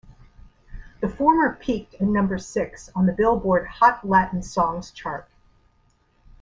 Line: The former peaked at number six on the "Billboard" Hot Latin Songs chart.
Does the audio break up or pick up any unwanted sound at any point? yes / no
no